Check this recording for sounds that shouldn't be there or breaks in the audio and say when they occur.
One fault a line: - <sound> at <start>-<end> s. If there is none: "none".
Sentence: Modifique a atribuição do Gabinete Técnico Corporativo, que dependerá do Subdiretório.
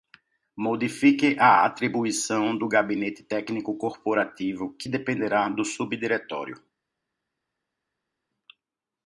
none